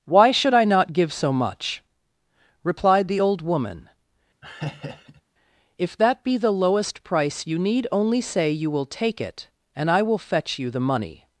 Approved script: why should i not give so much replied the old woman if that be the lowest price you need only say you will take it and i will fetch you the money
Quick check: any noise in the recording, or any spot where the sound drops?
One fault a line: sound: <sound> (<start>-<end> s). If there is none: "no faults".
sound: laugh (4.4-5.2 s)